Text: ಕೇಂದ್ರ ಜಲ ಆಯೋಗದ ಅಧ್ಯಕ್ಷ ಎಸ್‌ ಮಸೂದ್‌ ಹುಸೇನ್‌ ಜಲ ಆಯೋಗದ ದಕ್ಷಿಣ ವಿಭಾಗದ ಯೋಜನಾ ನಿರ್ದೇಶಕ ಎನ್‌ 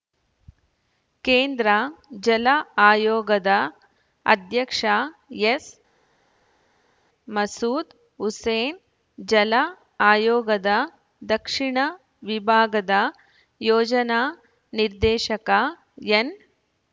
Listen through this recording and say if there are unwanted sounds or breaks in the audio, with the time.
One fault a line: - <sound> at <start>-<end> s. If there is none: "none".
none